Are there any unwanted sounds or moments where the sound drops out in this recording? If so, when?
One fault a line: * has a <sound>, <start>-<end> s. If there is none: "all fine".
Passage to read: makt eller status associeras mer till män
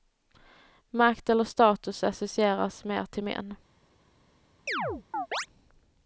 * has a chirp, 4.7-5.5 s